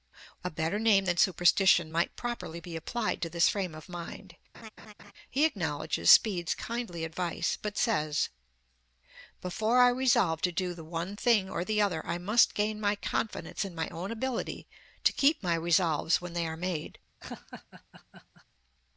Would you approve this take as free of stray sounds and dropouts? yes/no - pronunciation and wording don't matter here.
no